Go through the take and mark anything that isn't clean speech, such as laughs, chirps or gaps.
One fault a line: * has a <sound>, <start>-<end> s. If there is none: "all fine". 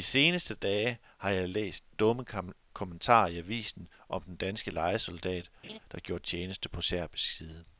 * has a laugh, 5.6-5.8 s